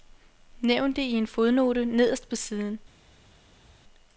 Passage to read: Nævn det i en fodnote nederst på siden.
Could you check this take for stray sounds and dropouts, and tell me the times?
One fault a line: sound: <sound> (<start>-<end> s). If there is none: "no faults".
no faults